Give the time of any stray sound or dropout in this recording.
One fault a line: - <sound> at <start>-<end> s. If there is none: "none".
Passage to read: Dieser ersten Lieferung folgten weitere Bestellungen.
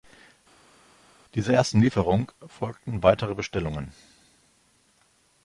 none